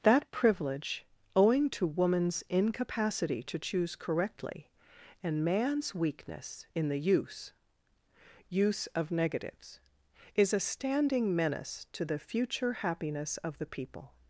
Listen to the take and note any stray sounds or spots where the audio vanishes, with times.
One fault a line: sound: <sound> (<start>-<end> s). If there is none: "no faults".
no faults